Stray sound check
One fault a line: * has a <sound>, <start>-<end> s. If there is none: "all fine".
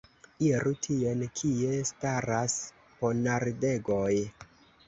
all fine